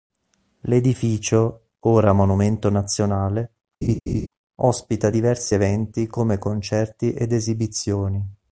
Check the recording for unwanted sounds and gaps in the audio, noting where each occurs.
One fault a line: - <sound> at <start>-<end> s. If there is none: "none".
- laugh at 3.8-4.3 s